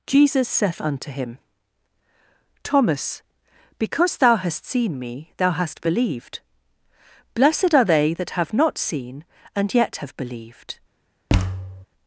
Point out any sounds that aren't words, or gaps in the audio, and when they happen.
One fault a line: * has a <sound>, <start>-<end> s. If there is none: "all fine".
* has a thud, 11.3-11.9 s